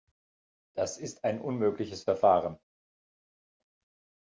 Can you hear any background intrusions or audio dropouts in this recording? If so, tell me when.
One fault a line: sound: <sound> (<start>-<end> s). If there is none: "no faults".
no faults